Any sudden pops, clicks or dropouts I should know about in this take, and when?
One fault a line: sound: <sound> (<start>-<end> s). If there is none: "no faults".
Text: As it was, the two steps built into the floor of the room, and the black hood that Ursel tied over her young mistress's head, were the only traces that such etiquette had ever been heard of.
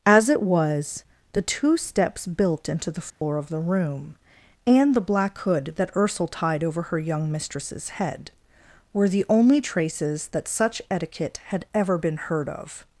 sound: dropout (3.1-3.2 s)